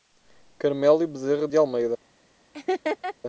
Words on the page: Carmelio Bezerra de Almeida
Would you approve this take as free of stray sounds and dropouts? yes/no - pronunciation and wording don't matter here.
no